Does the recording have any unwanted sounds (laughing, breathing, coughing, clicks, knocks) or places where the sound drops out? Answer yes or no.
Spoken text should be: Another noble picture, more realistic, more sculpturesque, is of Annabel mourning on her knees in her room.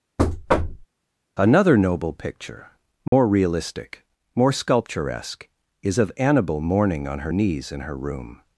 yes